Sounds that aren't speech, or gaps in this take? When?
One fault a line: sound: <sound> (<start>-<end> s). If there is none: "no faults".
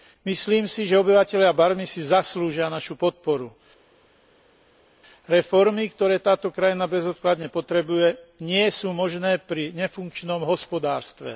no faults